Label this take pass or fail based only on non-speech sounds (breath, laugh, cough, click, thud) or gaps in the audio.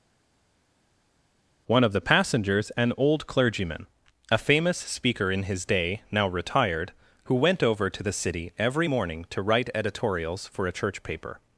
pass